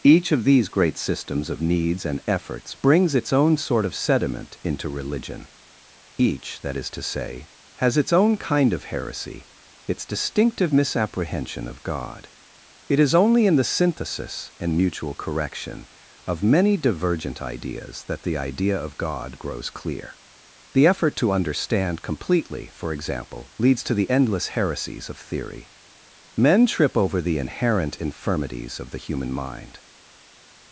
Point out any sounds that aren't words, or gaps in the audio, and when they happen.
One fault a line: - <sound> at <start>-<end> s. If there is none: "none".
none